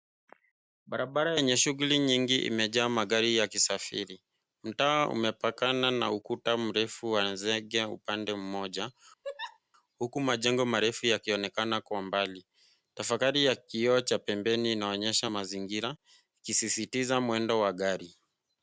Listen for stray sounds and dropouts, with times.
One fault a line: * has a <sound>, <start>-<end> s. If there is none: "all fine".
* has a laugh, 9.2-9.6 s